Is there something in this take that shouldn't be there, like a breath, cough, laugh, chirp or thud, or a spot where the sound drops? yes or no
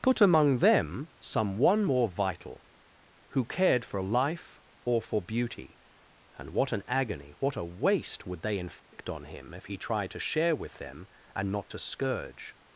yes